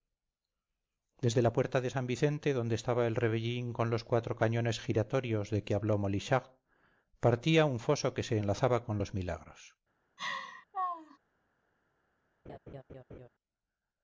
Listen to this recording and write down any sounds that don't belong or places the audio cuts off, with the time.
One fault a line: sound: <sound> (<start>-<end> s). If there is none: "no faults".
sound: laugh (10.2-11.2 s)
sound: laugh (12.5-13.3 s)